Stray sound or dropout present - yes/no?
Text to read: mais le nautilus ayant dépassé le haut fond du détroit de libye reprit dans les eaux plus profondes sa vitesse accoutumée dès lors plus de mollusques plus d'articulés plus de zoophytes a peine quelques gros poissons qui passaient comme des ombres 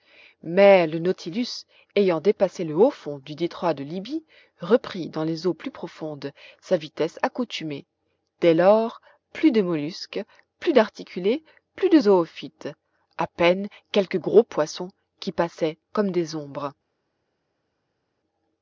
no